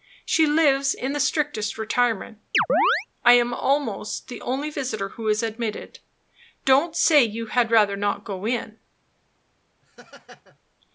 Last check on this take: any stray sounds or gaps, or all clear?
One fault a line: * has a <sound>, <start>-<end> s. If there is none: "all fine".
* has a chirp, 2.5-3.1 s
* has a laugh, 9.8-10.6 s